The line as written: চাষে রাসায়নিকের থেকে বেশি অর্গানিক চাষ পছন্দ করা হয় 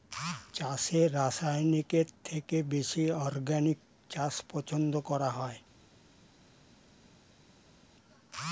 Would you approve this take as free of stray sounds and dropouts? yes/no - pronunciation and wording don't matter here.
yes